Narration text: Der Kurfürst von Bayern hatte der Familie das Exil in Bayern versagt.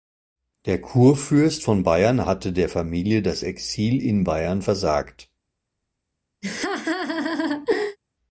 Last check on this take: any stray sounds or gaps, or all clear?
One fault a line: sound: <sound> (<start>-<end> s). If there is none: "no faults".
sound: laugh (6.4-8.0 s)